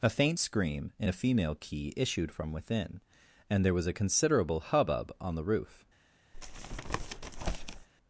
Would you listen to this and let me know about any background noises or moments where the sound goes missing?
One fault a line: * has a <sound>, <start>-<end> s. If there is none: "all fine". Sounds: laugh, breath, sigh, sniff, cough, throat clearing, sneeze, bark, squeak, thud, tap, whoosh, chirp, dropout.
* has a tap, 6.3-7.9 s